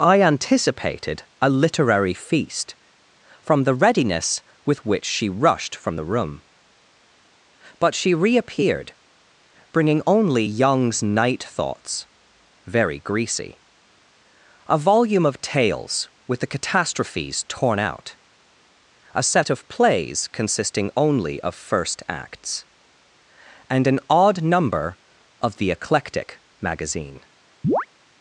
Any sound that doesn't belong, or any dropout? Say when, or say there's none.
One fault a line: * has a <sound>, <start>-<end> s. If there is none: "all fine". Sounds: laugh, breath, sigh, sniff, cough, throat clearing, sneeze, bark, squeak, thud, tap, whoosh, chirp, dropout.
* has a chirp, 27.6-27.9 s